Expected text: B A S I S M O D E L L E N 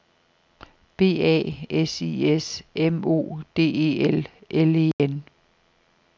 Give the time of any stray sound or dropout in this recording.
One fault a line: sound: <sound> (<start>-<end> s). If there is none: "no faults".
sound: dropout (4.9-5.0 s)